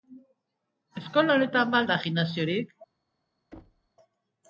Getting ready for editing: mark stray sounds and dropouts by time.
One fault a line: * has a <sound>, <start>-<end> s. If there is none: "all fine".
* has a thud, 3.5-3.9 s